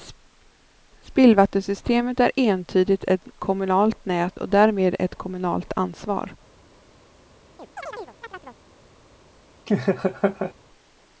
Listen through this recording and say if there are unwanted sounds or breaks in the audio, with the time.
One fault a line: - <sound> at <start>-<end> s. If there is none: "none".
- chirp at 7.6-8.6 s
- laugh at 9.7-10.5 s